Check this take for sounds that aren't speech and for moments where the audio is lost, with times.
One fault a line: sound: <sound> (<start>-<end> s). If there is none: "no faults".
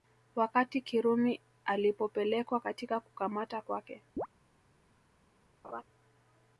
sound: chirp (4.2-4.3 s)
sound: laugh (5.6-5.8 s)